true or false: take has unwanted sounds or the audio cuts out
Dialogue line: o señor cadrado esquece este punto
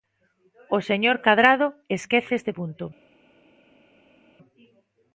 false